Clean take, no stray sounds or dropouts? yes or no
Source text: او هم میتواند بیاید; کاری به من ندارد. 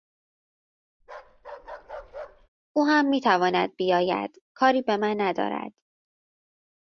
no